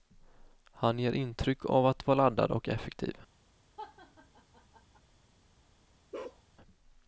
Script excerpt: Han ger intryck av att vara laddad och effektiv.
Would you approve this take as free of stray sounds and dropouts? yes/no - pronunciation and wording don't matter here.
no